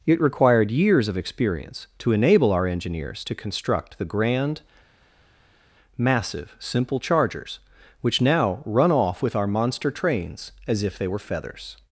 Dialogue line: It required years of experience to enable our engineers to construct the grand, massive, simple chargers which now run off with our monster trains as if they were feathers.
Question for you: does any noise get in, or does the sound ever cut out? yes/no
no